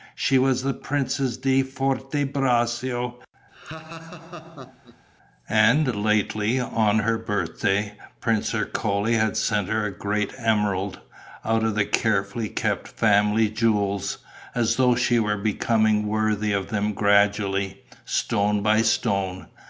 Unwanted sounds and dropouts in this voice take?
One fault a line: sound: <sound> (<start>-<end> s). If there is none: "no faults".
sound: laugh (3.5-5.0 s)